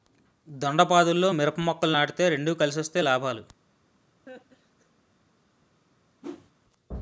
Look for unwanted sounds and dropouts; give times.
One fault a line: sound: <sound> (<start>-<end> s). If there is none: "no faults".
sound: laugh (4.3-4.9 s)
sound: whoosh (6.2-6.5 s)